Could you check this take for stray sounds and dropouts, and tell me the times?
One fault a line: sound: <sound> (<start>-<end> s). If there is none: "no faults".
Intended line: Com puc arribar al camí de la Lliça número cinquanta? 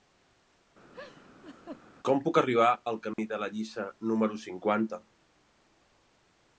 sound: laugh (0.9-1.8 s)
sound: dropout (3.1-3.2 s)